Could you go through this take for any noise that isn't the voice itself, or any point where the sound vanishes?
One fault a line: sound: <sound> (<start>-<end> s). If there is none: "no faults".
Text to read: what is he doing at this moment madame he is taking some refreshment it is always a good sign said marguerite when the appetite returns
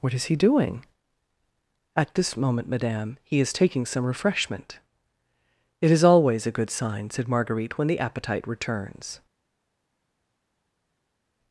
no faults